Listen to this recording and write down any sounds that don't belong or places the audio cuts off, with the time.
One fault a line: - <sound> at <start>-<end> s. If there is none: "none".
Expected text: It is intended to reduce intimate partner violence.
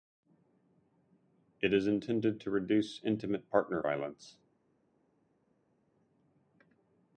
none